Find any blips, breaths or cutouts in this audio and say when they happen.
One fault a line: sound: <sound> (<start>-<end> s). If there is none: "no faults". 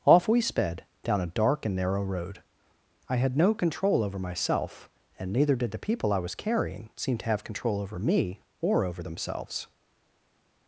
no faults